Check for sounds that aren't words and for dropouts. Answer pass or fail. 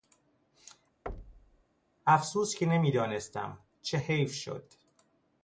fail